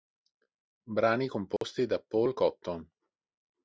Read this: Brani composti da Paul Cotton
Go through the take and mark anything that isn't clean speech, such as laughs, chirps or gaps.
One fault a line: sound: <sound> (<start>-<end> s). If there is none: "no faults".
sound: dropout (1.6-1.6 s)